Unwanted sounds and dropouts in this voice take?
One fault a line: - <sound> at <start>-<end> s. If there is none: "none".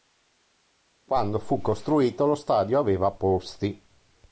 none